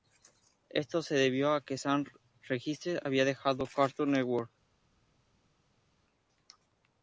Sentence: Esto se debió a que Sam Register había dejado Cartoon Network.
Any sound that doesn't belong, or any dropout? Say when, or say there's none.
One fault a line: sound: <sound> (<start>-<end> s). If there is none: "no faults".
no faults